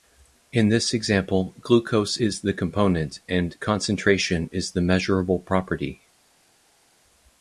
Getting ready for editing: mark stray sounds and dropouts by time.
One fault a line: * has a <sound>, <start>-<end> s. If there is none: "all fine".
all fine